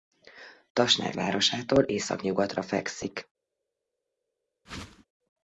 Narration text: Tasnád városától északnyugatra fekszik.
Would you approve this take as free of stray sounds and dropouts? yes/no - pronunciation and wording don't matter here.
no